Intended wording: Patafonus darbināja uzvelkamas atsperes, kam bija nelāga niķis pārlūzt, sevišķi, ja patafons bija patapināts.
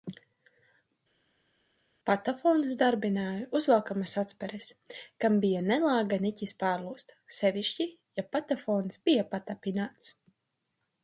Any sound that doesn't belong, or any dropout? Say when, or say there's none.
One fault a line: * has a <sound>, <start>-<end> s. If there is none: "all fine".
all fine